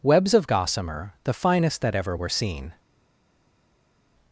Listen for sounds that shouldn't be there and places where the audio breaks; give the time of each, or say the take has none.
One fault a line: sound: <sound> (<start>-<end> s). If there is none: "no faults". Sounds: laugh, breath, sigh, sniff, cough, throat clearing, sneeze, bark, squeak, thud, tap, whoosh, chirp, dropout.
no faults